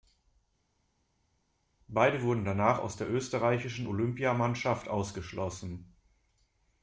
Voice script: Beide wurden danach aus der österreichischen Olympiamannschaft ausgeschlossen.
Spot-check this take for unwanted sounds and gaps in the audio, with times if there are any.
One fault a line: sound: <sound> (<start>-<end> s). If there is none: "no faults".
no faults